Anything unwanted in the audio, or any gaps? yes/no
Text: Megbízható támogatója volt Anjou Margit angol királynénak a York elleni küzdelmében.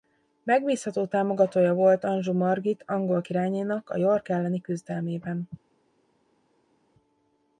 no